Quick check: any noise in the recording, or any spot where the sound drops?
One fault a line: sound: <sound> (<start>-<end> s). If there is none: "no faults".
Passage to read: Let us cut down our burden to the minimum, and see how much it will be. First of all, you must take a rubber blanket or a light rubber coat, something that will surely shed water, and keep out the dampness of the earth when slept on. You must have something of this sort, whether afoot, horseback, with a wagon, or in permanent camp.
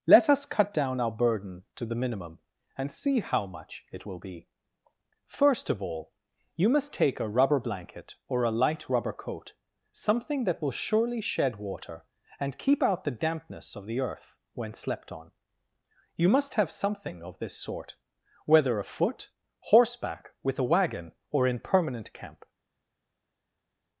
no faults